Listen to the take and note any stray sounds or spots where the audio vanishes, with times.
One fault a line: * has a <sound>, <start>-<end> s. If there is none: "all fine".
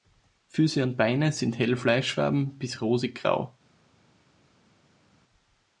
all fine